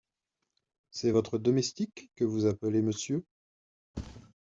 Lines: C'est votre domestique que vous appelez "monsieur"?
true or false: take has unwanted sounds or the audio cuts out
true